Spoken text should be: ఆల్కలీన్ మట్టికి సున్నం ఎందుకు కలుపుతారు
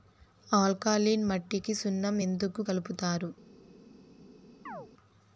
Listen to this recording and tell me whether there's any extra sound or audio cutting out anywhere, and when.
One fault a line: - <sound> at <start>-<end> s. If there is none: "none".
- chirp at 4.7-4.9 s